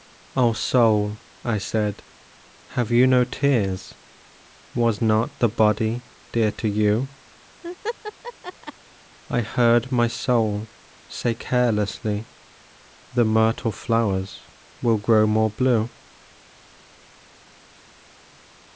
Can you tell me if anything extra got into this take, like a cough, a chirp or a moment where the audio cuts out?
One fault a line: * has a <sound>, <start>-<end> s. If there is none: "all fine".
* has a laugh, 7.6-8.7 s